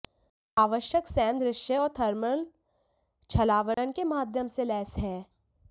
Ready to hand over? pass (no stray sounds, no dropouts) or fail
fail